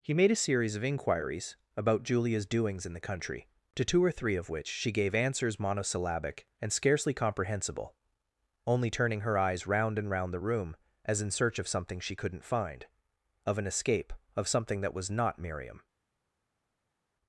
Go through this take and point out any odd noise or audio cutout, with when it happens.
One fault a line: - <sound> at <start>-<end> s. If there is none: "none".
none